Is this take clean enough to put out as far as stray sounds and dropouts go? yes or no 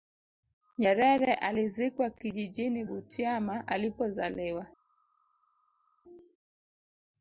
yes